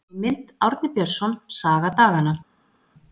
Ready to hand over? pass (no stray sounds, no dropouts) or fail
pass